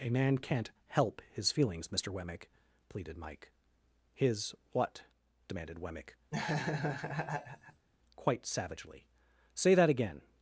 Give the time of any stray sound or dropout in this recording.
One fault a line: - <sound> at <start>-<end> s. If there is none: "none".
- laugh at 6.3-7.9 s